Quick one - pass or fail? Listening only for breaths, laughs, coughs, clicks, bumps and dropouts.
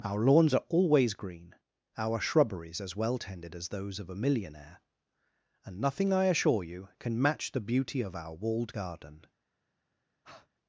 fail